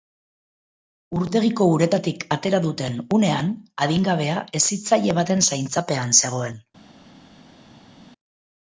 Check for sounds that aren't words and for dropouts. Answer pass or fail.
pass